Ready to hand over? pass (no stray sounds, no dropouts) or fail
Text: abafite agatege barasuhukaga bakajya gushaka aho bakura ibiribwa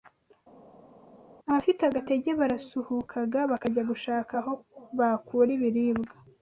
pass